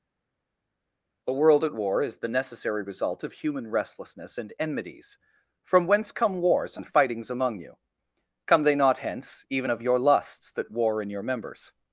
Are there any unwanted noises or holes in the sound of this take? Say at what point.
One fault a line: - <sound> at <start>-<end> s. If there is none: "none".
none